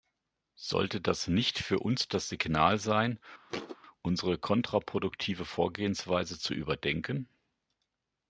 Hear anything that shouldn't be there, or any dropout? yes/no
yes